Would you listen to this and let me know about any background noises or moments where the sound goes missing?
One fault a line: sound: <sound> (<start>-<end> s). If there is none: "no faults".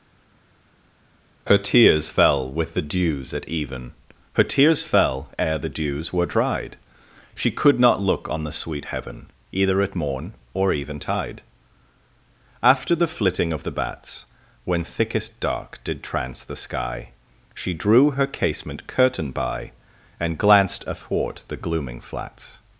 no faults